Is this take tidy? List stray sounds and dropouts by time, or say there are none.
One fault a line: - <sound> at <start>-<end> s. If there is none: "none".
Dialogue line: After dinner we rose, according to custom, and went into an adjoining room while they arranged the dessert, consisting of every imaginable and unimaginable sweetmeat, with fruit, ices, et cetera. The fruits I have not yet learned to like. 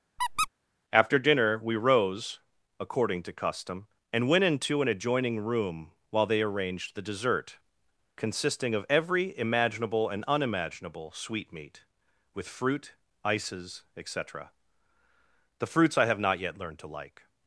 - squeak at 0.2-0.5 s